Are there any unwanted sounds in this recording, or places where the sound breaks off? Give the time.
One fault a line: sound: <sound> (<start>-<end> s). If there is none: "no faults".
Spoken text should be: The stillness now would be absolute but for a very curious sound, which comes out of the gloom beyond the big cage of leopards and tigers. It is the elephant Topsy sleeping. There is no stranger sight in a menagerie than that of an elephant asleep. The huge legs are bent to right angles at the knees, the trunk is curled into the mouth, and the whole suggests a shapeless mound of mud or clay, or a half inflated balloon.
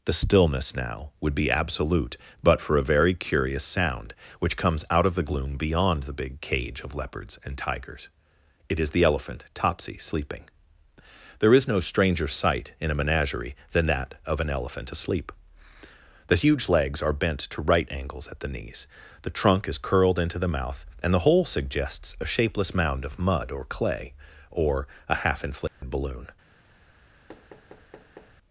sound: dropout (25.7-25.8 s)
sound: thud (27.3-28.4 s)